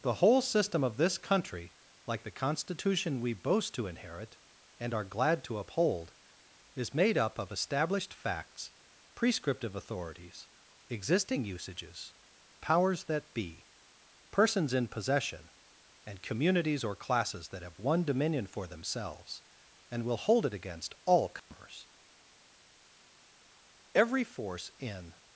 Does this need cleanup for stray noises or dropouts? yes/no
yes